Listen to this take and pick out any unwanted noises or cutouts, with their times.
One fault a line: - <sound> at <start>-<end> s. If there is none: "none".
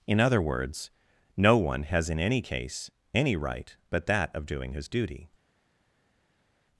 none